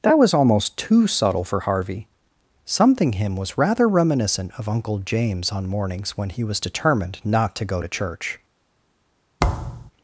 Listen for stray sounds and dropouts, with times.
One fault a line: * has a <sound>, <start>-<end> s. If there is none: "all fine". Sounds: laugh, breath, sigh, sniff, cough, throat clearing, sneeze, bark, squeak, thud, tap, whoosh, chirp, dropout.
* has a thud, 9.4-9.9 s